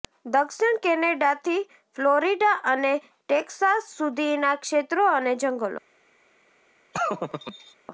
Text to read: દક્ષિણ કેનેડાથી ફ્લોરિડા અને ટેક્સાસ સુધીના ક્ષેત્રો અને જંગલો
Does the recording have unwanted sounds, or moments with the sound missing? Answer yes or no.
yes